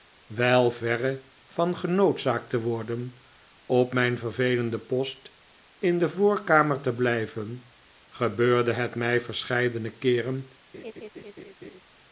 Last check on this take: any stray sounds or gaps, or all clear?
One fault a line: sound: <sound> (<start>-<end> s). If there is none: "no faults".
sound: laugh (10.7-11.8 s)